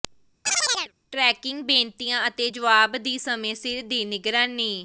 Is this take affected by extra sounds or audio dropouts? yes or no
yes